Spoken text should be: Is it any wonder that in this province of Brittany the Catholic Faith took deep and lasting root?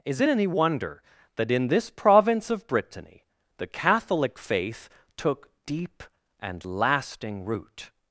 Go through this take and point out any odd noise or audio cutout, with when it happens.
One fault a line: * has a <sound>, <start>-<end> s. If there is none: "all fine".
all fine